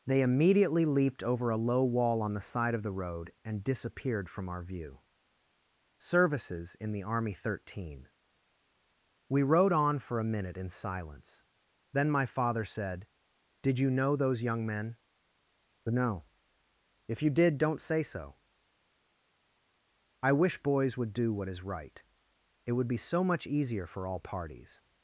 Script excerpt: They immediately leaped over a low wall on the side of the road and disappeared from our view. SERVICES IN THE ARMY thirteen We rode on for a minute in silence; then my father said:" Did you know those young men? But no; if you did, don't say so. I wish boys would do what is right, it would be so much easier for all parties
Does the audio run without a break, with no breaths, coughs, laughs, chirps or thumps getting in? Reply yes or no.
yes